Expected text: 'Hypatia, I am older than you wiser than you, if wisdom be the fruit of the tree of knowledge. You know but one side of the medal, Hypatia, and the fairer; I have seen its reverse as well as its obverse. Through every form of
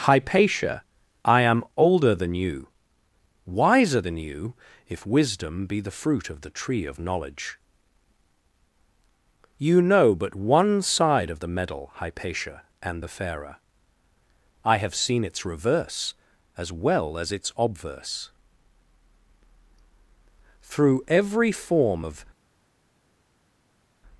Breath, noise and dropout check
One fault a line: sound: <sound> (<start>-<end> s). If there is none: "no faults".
no faults